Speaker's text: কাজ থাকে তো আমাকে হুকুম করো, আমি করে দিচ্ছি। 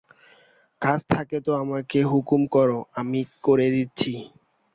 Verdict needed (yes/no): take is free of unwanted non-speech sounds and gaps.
yes